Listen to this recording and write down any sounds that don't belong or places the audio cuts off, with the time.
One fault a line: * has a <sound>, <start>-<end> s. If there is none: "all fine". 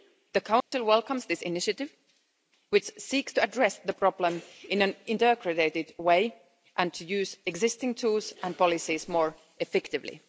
* has a dropout, 0.6-0.7 s